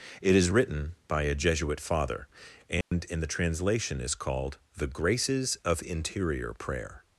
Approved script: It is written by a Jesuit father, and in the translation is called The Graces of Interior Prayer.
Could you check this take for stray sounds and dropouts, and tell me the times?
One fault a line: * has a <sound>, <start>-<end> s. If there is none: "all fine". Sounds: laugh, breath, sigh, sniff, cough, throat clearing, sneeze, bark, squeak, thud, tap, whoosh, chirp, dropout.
* has a dropout, 2.8-2.9 s